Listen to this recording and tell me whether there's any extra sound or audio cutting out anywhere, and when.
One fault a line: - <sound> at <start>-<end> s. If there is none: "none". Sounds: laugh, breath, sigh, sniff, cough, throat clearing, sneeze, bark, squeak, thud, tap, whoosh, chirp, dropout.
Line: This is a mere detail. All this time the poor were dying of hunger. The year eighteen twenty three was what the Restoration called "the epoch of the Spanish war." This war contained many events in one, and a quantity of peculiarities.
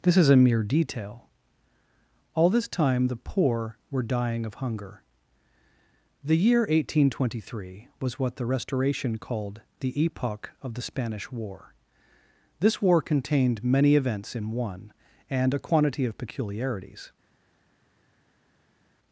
none